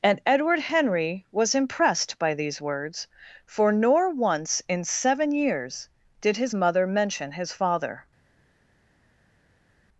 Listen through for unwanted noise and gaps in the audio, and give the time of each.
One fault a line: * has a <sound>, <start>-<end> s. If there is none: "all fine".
all fine